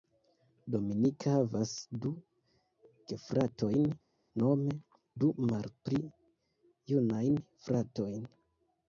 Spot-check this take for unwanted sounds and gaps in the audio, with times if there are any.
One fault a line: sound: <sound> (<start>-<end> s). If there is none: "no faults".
no faults